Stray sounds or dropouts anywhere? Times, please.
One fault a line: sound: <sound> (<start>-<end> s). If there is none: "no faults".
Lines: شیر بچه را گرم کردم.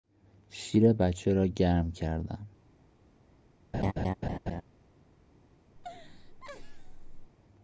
sound: laugh (3.7-4.6 s)
sound: laugh (5.8-7.3 s)